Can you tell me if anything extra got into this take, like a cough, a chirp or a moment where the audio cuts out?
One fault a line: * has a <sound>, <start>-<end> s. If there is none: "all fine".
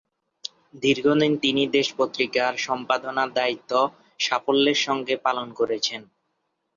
all fine